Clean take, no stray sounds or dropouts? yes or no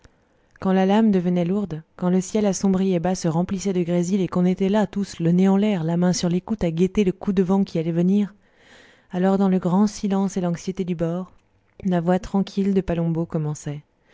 yes